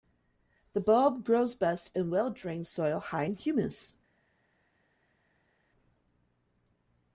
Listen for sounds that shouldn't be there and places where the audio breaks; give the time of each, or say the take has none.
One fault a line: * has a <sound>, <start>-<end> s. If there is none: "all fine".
all fine